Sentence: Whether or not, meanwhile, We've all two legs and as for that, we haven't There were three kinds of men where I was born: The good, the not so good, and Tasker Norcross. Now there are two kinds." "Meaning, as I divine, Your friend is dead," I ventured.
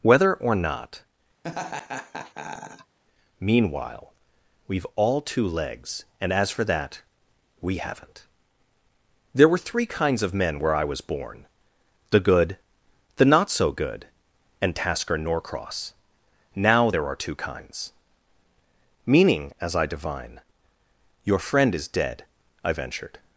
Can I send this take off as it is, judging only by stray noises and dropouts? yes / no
no